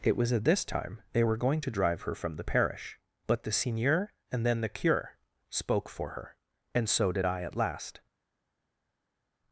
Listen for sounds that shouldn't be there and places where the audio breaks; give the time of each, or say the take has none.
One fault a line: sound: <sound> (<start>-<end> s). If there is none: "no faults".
no faults